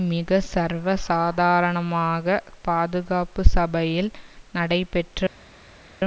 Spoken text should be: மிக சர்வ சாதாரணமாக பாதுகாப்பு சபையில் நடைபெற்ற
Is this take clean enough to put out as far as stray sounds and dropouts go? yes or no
yes